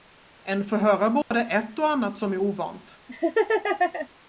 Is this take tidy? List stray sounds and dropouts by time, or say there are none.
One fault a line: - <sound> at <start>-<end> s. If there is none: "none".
- dropout at 1.2-1.3 s
- laugh at 3.1-4.1 s